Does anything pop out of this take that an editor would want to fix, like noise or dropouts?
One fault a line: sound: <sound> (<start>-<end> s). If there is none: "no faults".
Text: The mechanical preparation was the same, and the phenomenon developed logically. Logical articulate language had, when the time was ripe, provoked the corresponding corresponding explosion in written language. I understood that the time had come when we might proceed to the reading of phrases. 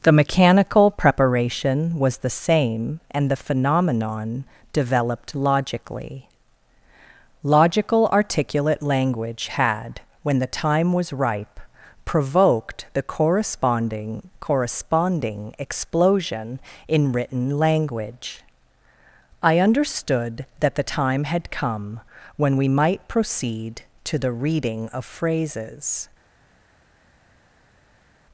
no faults